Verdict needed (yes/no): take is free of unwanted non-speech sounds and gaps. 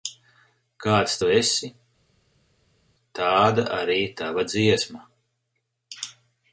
yes